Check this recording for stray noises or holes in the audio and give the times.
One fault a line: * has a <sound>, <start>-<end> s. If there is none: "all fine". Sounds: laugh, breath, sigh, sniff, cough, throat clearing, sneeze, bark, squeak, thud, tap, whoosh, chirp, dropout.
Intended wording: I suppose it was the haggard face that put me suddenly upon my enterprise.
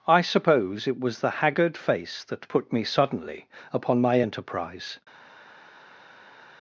all fine